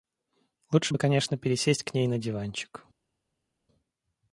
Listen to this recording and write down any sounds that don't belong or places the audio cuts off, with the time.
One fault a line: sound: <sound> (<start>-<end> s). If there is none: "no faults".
no faults